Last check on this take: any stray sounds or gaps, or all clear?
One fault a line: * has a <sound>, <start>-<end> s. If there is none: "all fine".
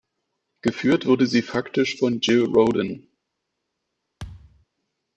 * has a thud, 4.2-4.7 s